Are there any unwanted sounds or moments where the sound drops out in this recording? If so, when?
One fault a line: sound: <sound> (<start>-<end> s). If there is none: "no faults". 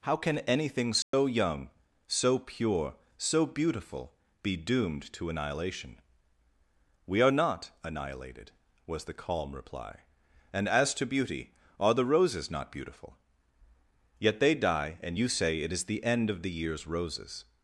sound: dropout (1.0-1.1 s)